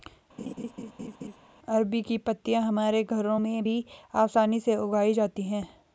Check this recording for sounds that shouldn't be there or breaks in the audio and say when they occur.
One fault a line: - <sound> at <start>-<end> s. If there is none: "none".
- laugh at 0.4-1.4 s